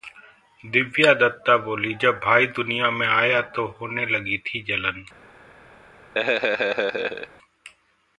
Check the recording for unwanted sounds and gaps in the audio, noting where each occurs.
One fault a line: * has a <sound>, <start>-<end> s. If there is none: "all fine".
* has a laugh, 6.1-7.3 s